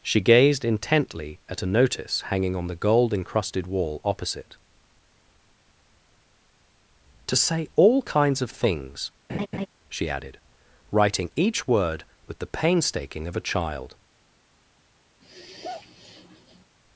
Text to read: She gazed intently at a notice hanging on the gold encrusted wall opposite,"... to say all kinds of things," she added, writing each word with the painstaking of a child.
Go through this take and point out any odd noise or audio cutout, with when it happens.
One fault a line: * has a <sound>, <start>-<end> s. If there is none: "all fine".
* has a laugh, 9.3-9.7 s
* has a sigh, 15.2-16.7 s